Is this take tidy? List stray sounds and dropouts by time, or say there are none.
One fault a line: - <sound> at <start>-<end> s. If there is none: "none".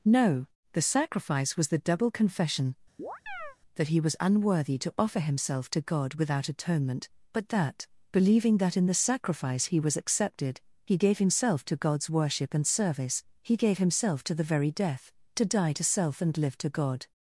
- chirp at 3.0-3.6 s